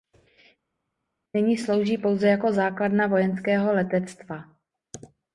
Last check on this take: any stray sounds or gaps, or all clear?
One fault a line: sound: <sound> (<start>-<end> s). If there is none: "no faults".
no faults